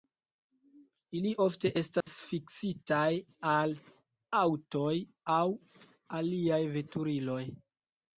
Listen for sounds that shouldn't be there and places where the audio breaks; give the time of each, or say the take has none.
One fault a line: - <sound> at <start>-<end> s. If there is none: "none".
- dropout at 2.0-2.1 s